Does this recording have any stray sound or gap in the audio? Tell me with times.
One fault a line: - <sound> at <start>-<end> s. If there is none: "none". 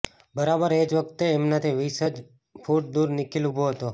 none